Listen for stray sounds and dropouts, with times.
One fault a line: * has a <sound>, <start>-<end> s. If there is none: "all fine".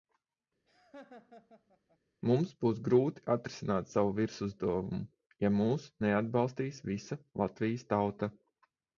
* has a laugh, 0.7-2.0 s